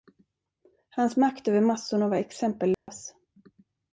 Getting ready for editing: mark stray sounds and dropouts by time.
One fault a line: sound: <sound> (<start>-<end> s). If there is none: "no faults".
sound: dropout (2.7-2.9 s)